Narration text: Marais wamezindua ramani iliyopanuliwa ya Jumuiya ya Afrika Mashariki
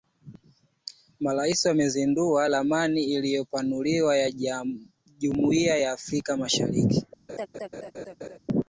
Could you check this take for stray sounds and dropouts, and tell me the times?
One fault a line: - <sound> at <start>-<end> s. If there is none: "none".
- laugh at 7.3-8.4 s